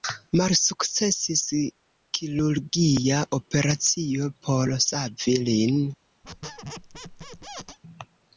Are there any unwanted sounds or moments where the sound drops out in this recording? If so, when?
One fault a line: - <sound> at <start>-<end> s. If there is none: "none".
- squeak at 6.2-7.8 s